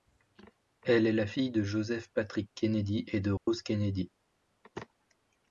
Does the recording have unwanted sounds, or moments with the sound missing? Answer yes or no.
yes